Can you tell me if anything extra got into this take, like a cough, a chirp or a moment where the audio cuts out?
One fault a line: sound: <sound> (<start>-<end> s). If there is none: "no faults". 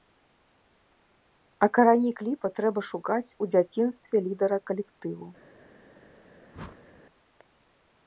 sound: whoosh (6.5-7.0 s)